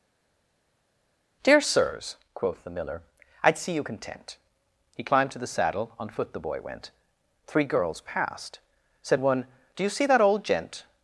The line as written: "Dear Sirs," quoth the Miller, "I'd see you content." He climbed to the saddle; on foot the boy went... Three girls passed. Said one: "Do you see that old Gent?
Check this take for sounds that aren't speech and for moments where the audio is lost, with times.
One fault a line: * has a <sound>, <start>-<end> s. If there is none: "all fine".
all fine